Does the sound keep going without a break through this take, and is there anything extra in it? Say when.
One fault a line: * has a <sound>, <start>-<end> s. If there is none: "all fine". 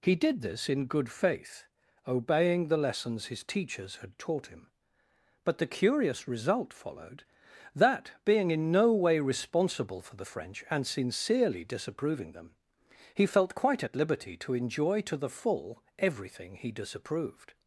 all fine